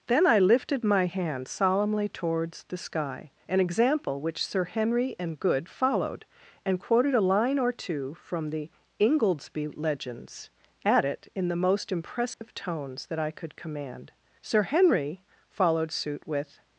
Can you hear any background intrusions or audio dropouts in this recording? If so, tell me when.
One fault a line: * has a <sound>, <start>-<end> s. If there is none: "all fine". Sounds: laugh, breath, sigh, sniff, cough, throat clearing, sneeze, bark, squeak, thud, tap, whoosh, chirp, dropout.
* has a dropout, 12.3-12.4 s